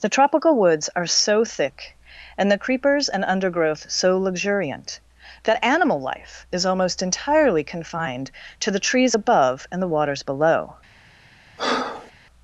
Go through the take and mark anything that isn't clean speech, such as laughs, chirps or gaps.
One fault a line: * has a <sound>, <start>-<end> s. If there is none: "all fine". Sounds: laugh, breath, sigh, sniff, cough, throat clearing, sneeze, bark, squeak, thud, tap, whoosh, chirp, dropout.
* has a breath, 11.6-12.1 s